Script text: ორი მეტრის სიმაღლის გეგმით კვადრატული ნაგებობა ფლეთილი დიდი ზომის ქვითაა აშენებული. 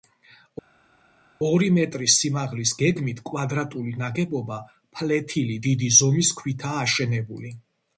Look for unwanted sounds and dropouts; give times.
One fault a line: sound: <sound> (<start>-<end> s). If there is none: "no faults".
no faults